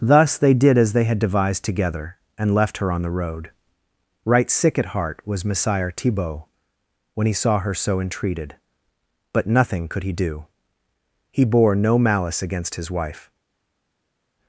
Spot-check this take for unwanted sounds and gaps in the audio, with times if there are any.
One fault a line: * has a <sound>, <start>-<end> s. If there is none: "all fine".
all fine